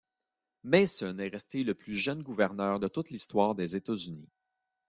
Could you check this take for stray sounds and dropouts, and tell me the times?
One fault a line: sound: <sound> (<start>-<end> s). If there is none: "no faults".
no faults